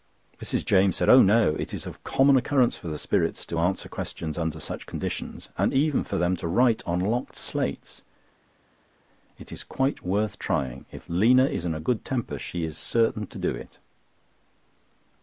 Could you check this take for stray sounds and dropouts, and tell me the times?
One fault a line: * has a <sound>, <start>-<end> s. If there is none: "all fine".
all fine